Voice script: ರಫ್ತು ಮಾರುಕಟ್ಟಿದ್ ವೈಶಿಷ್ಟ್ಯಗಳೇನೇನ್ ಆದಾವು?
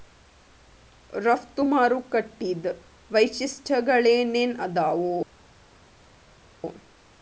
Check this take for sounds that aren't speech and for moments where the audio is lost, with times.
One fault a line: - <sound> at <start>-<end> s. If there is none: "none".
none